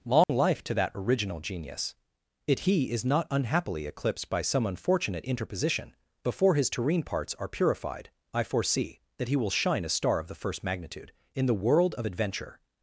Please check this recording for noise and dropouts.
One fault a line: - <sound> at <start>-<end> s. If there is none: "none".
- dropout at 0.2-0.3 s